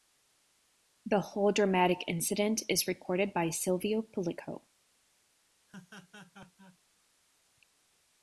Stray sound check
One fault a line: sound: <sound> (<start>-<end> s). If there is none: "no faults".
sound: laugh (5.7-6.8 s)